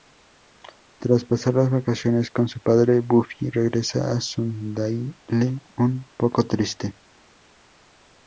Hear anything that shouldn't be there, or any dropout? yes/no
no